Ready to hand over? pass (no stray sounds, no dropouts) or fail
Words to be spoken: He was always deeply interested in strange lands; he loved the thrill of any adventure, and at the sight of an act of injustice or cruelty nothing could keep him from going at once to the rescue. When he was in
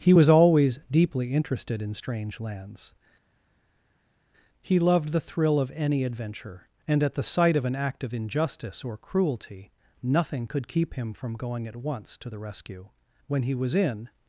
pass